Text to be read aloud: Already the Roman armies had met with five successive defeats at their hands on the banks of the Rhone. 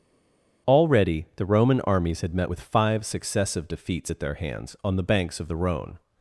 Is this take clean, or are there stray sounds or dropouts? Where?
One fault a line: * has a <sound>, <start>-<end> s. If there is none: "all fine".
all fine